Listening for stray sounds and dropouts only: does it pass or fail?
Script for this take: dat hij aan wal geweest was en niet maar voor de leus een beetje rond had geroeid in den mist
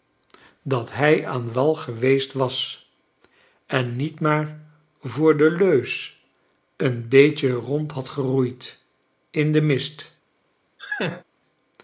fail